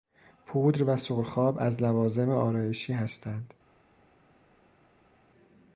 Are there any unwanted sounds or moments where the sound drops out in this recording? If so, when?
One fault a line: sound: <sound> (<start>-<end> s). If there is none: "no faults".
no faults